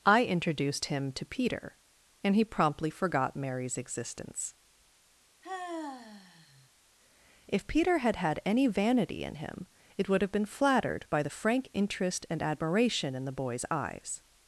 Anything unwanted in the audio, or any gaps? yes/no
yes